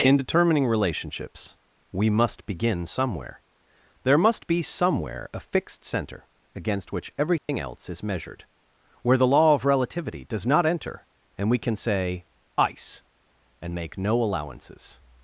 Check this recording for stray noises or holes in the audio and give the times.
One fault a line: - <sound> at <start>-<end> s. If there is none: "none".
- dropout at 7.4-7.5 s